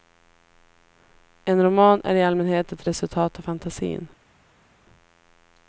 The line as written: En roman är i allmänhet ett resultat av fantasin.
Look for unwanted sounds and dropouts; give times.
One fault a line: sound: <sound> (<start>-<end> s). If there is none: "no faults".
no faults